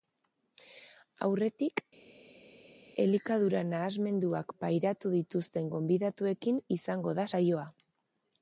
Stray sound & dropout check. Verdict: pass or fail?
pass